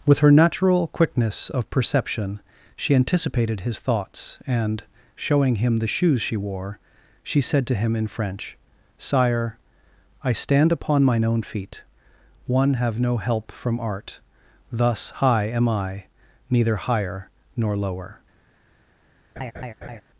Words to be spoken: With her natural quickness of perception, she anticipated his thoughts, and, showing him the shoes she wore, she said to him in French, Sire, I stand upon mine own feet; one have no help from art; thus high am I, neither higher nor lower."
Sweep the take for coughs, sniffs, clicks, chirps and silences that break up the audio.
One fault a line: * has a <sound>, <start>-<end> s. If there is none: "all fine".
* has a laugh, 19.4-20.0 s